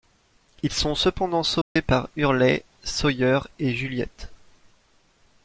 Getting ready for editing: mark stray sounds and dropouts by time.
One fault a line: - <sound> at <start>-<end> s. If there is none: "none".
- dropout at 1.6-1.8 s